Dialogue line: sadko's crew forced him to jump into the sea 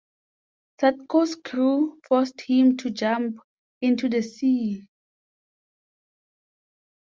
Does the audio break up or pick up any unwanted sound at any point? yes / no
no